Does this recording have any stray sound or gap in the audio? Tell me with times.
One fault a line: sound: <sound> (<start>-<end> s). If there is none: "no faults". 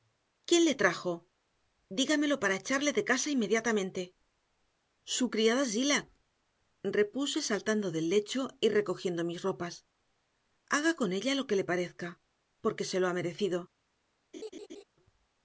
sound: laugh (14.3-14.8 s)